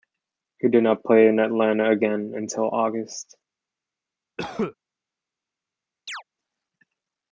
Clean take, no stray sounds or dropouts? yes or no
no